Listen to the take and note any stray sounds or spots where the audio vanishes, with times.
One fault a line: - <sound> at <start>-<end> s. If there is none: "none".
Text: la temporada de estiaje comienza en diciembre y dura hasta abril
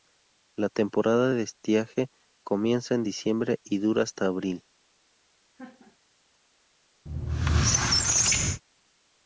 - laugh at 5.6-6.0 s
- squeak at 7.1-8.6 s